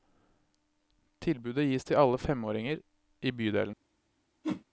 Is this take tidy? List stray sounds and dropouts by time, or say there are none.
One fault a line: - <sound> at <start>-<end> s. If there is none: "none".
- whoosh at 4.4-4.6 s